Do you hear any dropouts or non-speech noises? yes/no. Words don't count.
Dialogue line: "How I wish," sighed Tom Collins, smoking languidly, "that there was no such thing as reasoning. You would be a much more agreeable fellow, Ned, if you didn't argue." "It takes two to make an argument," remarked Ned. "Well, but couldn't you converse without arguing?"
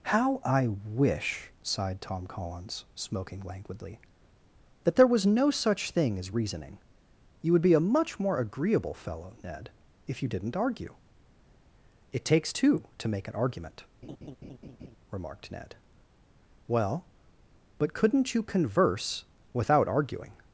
yes